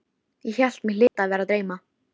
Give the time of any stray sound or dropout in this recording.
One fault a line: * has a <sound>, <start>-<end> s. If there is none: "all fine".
* has a dropout, 1.1-1.2 s